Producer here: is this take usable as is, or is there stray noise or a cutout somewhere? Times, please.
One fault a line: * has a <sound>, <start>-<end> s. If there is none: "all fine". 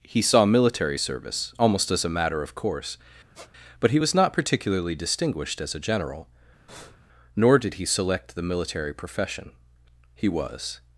* has a squeak, 3.3-3.5 s
* has a breath, 6.7-7.0 s